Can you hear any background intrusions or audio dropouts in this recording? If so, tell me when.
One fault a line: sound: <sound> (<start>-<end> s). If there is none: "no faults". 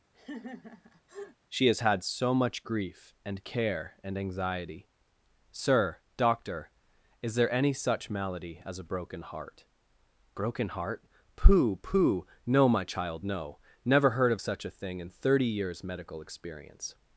sound: laugh (0.1-1.4 s)